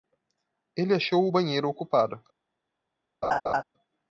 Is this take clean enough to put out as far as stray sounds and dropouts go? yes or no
no